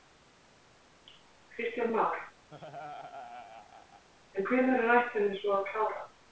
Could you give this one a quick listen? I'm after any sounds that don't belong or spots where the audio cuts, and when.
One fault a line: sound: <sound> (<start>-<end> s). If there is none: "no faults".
sound: laugh (2.5-4.1 s)